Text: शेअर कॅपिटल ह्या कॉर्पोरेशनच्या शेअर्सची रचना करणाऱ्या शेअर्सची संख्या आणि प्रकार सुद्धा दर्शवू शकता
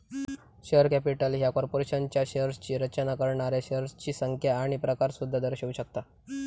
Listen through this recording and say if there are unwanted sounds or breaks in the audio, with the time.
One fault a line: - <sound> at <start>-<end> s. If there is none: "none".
none